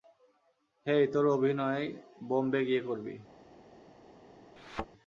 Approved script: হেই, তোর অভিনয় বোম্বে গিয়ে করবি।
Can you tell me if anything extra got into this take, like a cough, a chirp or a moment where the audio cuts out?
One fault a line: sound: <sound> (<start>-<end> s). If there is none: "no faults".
sound: thud (4.6-4.9 s)